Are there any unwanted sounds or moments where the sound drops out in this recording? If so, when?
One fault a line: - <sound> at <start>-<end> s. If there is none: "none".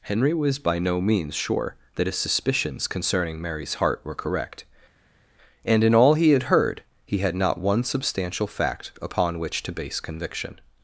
none